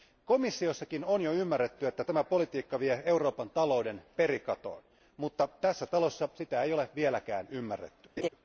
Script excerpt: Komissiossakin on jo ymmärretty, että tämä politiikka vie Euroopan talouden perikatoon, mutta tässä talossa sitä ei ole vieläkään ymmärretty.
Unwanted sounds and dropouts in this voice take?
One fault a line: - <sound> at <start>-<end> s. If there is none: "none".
- laugh at 8.2-8.3 s